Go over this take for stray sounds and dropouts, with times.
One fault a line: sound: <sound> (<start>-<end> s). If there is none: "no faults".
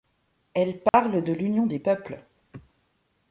sound: dropout (0.9-0.9 s)